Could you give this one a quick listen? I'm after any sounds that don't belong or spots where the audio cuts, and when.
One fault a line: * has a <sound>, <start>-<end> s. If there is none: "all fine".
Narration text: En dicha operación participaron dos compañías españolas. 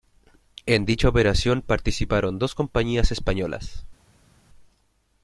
all fine